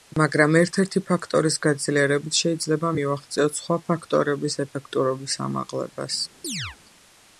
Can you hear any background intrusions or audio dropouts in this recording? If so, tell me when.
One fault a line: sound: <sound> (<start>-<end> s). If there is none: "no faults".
sound: chirp (6.4-6.8 s)